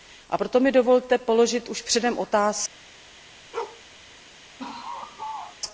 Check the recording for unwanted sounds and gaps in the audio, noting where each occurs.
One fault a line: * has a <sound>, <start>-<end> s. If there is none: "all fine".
* has a bark, 3.5-3.8 s
* has a laugh, 4.6-5.6 s